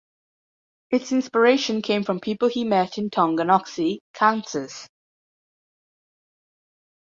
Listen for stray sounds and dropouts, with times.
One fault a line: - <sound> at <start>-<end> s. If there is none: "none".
none